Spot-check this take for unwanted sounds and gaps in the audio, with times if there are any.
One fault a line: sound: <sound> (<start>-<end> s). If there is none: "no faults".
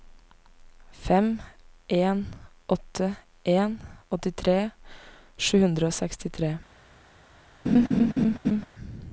sound: laugh (7.7-8.7 s)